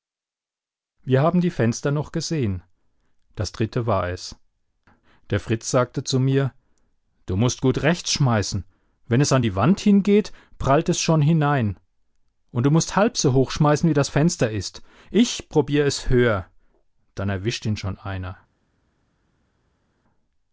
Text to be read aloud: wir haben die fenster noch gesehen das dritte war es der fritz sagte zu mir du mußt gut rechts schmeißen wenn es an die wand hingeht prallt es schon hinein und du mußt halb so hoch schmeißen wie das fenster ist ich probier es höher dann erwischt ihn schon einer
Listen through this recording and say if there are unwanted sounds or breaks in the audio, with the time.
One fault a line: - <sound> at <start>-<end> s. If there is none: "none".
none